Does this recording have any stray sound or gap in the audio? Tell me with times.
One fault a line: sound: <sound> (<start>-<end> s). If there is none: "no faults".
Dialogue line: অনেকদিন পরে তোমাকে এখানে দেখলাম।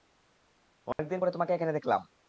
sound: dropout (0.9-1.0 s)